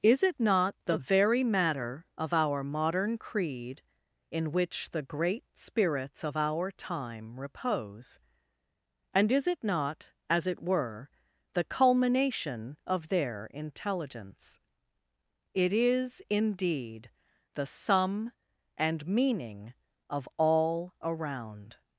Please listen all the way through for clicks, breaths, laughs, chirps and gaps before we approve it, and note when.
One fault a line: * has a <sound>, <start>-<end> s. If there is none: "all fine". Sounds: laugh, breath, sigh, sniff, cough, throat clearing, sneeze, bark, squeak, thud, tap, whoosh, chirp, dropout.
all fine